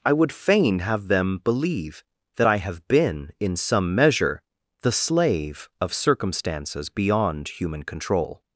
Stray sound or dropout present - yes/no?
no